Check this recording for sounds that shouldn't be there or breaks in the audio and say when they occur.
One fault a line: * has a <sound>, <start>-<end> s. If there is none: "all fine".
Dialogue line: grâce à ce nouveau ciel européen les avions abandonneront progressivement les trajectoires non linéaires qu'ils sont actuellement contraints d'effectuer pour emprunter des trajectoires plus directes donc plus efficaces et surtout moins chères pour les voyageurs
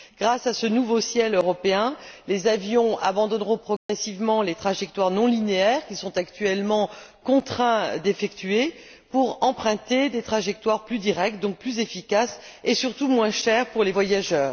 * has a dropout, 3.8-3.9 s